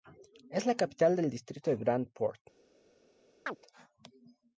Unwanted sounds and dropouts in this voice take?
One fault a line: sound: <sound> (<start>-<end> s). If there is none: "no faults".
sound: chirp (3.5-3.6 s)